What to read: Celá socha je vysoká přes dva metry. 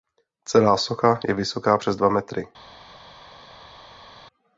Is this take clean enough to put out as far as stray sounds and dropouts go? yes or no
yes